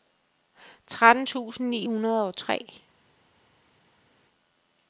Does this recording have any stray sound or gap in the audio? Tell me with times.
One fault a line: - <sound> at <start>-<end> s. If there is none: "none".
none